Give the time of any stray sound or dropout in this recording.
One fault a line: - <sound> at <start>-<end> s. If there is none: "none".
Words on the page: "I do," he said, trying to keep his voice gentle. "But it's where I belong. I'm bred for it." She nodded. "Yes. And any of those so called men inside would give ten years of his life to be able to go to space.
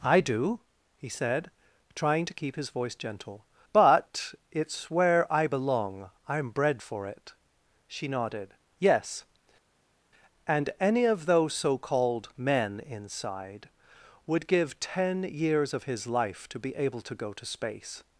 none